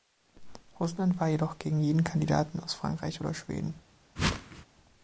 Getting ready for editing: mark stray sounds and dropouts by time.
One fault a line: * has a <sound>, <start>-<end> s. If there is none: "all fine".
* has a whoosh, 4.2-4.7 s